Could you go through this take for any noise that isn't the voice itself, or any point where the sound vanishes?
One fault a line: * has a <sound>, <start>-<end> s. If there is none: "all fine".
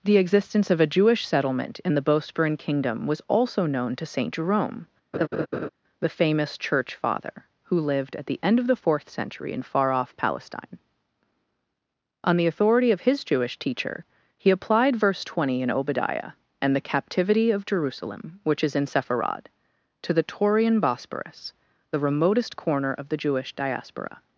* has a laugh, 5.1-5.7 s